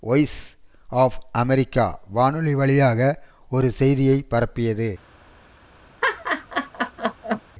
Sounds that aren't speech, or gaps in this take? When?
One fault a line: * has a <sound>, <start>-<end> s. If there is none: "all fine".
* has a laugh, 6.0-7.4 s